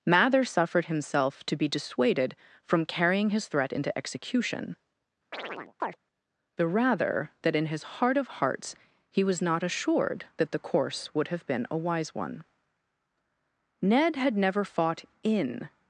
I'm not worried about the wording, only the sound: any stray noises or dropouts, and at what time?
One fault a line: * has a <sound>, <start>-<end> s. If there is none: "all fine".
* has a chirp, 5.3-6.0 s